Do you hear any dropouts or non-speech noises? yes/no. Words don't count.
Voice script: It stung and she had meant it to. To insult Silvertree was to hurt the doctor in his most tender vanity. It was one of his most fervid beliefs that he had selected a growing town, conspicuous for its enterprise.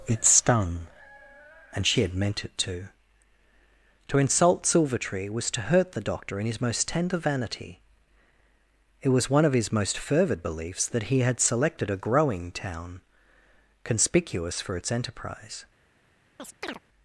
yes